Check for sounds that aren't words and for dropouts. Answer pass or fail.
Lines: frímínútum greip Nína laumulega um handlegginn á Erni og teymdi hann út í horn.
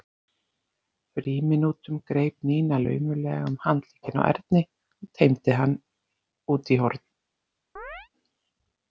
fail